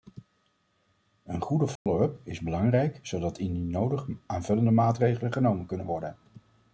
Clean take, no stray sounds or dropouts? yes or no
no